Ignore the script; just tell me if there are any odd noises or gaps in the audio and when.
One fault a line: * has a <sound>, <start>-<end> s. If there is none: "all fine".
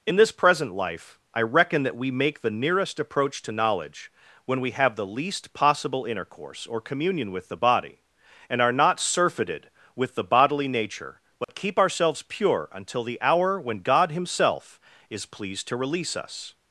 * has a dropout, 11.4-11.5 s